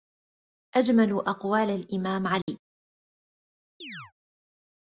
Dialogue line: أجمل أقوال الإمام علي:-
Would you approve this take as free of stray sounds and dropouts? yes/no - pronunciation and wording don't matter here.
no